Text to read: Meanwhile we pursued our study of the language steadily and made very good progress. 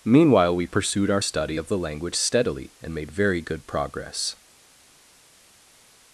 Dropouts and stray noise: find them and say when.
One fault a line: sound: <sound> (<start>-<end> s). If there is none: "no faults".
no faults